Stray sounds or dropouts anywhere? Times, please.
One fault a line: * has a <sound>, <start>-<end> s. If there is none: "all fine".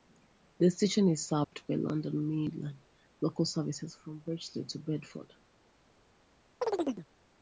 * has a dropout, 1.4-1.5 s
* has a chirp, 6.6-7.1 s